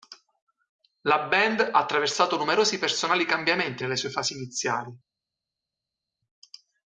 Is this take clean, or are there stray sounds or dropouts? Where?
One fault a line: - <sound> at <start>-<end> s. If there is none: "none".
none